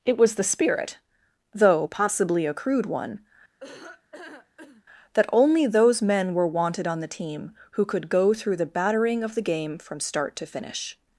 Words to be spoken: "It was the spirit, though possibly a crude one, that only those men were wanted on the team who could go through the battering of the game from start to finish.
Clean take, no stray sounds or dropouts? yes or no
no